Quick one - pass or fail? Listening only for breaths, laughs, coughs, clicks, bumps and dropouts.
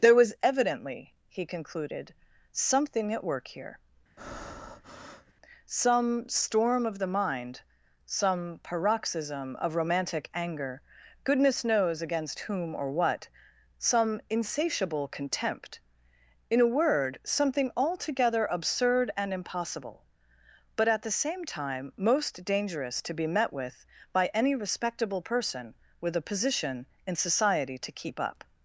fail